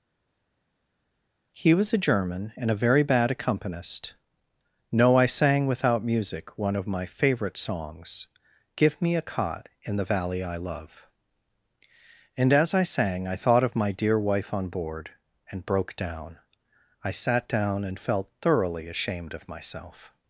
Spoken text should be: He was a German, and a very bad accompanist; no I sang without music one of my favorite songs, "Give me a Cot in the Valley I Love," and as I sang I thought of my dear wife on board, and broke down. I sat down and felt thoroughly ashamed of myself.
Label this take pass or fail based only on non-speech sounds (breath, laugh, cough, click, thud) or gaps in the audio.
pass